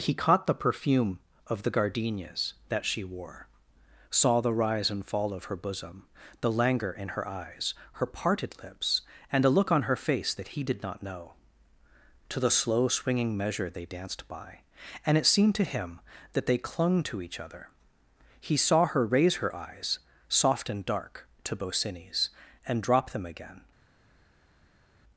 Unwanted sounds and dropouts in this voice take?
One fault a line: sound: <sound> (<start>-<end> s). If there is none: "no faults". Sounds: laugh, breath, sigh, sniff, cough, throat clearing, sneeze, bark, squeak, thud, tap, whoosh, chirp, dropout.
no faults